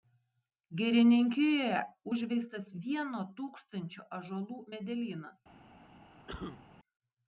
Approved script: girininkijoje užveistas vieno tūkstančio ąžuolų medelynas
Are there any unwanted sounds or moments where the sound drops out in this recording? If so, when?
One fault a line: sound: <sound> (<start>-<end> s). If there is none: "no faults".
sound: cough (6.3-6.7 s)